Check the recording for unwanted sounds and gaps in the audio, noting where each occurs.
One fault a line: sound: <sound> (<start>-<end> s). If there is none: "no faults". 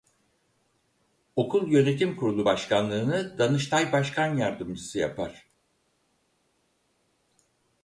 no faults